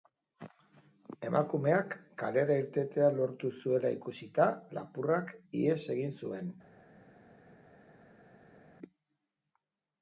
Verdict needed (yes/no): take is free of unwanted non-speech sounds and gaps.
yes